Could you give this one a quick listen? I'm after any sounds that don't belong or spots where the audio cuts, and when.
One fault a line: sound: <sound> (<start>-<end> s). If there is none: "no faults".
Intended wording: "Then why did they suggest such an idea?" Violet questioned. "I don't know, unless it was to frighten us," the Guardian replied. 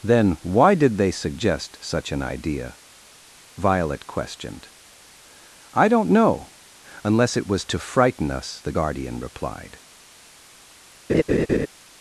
sound: laugh (11.1-11.7 s)